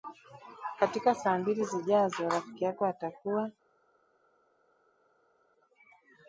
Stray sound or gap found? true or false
false